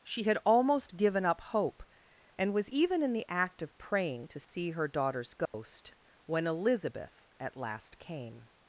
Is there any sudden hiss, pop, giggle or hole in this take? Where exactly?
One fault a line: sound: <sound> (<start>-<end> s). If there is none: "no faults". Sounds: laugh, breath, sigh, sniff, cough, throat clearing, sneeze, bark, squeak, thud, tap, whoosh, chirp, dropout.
sound: dropout (4.4-4.5 s)
sound: dropout (5.5-5.5 s)